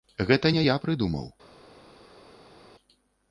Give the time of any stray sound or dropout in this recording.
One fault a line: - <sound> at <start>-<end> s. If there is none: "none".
none